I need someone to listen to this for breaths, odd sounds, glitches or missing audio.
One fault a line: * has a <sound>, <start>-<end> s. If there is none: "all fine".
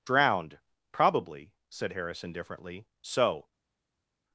all fine